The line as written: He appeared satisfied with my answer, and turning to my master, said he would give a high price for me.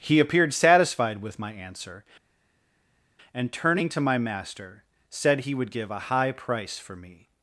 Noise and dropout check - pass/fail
pass